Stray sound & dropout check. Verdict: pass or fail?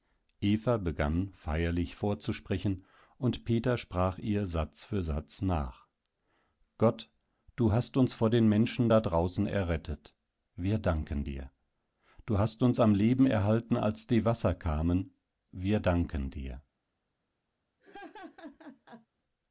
fail